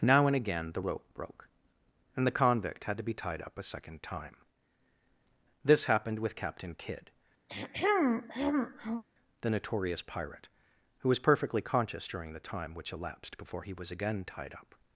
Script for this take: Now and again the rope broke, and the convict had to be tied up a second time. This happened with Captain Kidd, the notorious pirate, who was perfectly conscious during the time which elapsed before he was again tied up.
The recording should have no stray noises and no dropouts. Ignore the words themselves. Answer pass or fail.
fail